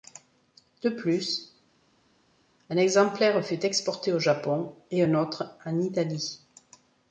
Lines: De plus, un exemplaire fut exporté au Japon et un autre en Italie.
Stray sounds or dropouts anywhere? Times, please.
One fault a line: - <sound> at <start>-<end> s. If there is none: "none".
none